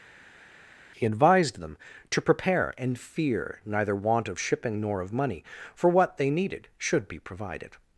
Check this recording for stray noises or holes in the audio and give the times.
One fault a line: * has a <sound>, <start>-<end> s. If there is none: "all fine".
all fine